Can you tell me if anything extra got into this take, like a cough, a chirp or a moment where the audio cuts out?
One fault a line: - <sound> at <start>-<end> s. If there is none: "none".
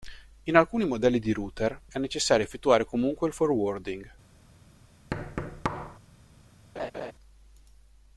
- thud at 5.1-6.0 s
- laugh at 6.8-7.1 s